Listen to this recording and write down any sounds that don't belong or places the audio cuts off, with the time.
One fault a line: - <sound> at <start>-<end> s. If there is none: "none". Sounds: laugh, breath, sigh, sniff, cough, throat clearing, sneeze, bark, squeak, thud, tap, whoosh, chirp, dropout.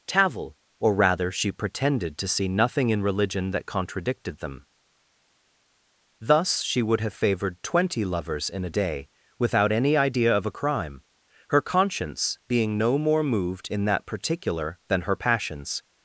none